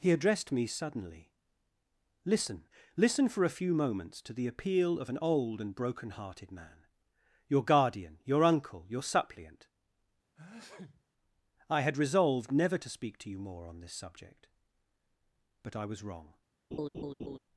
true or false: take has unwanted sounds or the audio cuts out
true